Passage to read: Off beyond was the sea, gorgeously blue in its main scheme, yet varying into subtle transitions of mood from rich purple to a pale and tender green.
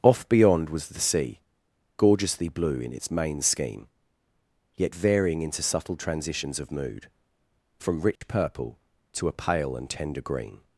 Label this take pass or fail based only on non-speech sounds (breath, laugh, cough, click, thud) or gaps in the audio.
fail